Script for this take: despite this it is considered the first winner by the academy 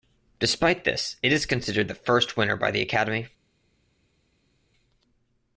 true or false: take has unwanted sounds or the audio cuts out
false